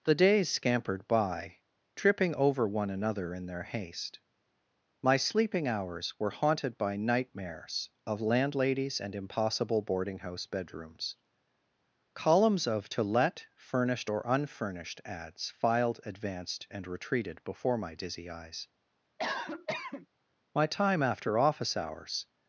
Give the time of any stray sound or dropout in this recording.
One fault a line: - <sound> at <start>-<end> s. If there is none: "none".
- cough at 19.2-20.1 s